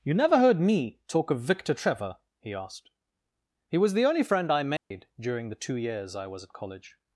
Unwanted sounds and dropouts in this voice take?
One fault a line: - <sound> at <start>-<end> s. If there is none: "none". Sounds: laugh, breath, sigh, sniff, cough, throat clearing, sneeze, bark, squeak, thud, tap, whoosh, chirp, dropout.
- dropout at 4.8-4.9 s